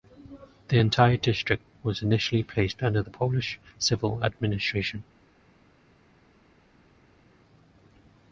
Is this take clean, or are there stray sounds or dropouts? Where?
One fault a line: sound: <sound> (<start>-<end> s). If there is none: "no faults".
no faults